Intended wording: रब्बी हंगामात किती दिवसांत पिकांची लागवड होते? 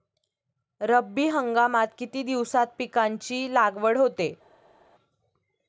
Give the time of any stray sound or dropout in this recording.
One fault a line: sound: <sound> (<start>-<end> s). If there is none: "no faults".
no faults